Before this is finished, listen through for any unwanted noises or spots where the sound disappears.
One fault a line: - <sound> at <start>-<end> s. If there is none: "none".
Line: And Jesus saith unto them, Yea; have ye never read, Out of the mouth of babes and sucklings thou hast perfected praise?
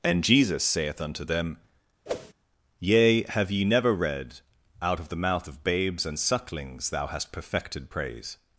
- whoosh at 2.1-2.3 s